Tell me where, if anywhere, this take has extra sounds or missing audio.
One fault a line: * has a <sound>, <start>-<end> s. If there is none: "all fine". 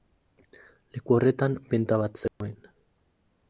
* has a dropout, 2.3-2.4 s